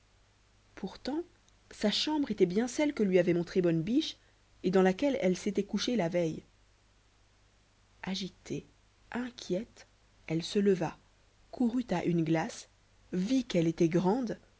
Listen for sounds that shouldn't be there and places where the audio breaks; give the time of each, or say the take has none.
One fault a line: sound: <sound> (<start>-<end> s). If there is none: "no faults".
no faults